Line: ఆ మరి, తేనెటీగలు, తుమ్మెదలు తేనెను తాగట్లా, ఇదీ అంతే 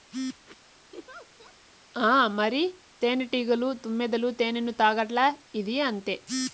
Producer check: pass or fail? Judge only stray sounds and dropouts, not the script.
fail